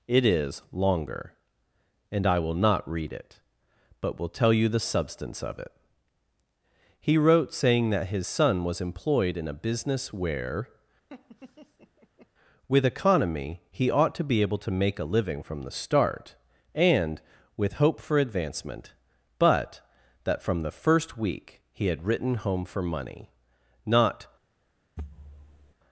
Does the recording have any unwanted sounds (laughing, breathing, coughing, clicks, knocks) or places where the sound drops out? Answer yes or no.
yes